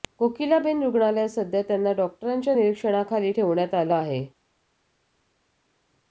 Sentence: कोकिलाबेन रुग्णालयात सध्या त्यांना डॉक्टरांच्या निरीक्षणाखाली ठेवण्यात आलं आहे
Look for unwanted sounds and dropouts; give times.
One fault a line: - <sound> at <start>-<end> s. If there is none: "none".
none